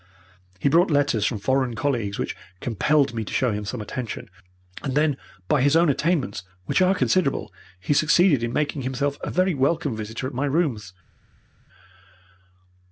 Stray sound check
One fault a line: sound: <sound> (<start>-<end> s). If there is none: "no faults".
no faults